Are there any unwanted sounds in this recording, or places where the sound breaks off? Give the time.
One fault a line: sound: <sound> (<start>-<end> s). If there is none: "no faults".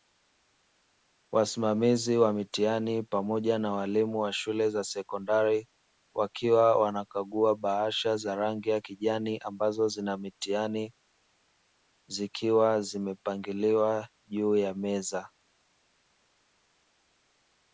no faults